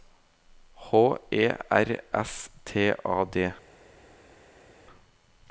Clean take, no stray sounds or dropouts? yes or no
yes